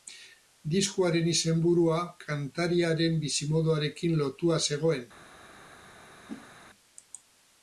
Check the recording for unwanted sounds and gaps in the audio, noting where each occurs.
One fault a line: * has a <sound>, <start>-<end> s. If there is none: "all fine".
* has a whoosh, 6.3-6.5 s